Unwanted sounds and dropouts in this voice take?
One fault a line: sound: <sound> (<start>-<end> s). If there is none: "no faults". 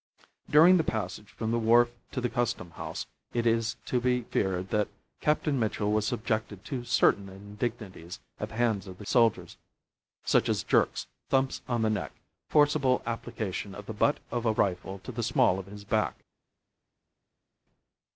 no faults